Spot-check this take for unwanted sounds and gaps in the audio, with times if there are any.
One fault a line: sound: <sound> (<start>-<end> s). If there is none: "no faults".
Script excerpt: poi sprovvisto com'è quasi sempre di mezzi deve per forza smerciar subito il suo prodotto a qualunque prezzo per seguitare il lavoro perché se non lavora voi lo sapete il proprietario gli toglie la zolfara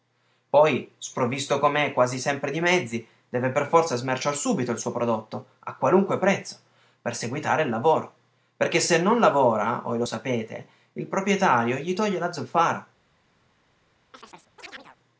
sound: chirp (14.1-15.0 s)